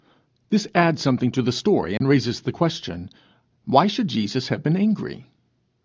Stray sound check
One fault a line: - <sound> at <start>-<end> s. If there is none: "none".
- dropout at 2.0-2.0 s